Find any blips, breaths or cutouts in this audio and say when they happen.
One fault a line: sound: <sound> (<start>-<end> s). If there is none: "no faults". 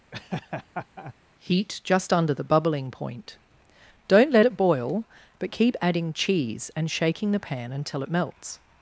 sound: laugh (0.1-1.1 s)